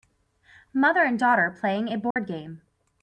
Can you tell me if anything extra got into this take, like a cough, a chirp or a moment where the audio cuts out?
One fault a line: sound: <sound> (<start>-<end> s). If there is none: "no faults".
sound: dropout (2.1-2.2 s)